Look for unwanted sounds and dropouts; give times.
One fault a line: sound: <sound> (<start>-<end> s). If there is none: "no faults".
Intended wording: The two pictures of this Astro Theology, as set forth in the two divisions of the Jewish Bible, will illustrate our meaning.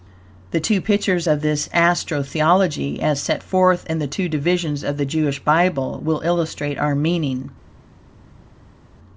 no faults